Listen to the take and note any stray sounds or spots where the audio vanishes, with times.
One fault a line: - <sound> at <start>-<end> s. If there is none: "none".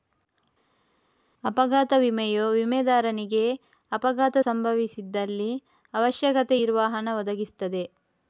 none